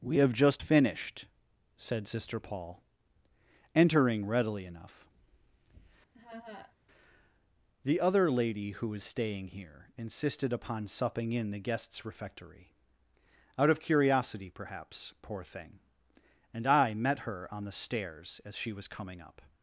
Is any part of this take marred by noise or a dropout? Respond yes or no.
yes